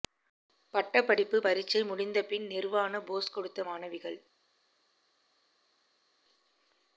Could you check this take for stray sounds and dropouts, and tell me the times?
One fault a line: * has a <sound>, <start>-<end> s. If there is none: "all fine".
all fine